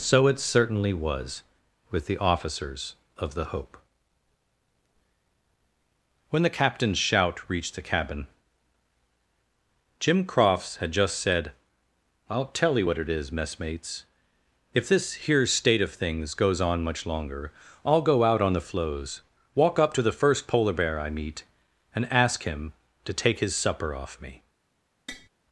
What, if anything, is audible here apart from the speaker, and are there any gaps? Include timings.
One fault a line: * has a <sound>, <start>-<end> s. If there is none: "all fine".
* has a tap, 25.1-25.3 s